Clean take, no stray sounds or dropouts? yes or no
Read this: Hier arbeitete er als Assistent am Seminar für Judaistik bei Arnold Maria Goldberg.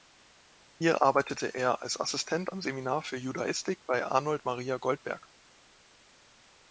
yes